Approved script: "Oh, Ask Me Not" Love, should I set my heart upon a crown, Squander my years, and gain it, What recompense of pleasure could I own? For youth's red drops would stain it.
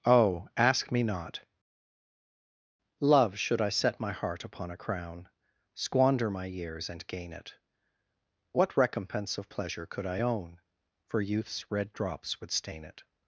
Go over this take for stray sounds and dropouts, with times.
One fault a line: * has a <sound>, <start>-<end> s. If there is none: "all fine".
all fine